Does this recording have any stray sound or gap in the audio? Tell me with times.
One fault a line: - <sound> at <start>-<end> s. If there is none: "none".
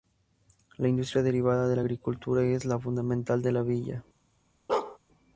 - bark at 4.7-5.0 s